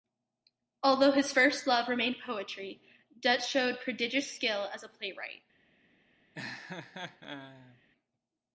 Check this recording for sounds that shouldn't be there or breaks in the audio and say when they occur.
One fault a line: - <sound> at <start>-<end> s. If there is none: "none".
- laugh at 6.3-7.8 s